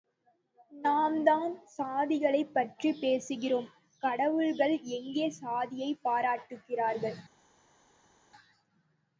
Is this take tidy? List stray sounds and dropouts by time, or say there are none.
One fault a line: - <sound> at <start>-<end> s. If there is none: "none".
none